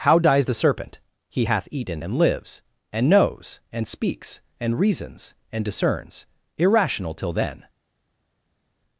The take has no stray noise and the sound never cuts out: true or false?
true